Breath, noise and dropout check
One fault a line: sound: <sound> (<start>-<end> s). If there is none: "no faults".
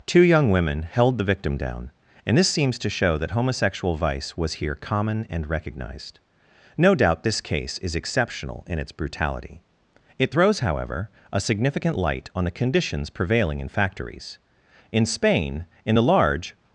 no faults